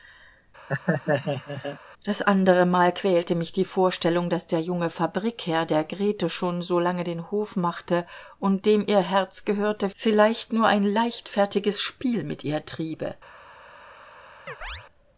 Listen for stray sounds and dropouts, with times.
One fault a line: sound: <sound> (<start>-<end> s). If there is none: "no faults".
sound: laugh (0.7-1.8 s)
sound: chirp (14.5-14.8 s)